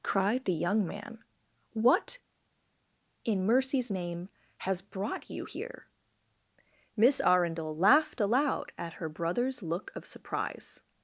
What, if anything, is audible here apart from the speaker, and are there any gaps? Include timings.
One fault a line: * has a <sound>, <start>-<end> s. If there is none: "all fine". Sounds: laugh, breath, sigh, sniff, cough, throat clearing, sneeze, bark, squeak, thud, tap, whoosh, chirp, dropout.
all fine